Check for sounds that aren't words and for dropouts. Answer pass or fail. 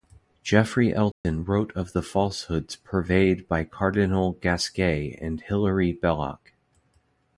fail